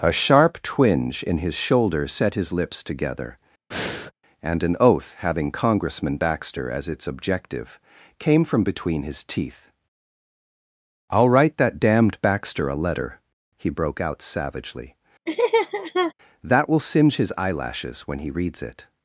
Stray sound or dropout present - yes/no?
yes